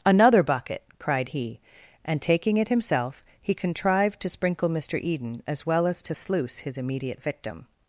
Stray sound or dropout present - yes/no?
no